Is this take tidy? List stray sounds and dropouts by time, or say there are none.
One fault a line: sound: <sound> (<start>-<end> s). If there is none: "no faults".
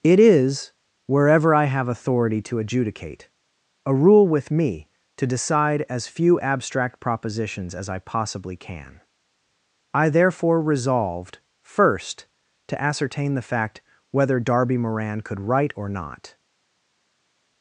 no faults